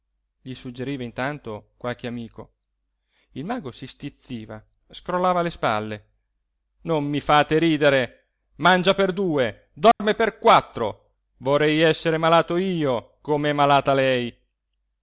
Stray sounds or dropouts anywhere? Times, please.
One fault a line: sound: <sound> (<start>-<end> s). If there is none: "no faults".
sound: dropout (9.9-10.0 s)